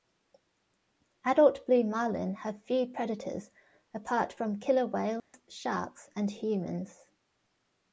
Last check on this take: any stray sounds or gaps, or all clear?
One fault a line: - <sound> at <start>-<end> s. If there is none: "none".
- dropout at 5.2-5.3 s